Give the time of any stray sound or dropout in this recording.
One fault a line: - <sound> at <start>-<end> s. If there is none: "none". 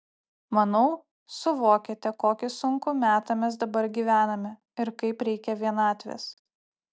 none